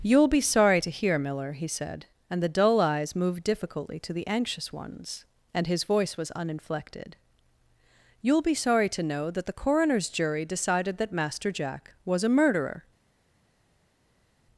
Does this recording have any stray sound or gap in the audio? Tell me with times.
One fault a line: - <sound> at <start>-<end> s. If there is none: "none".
none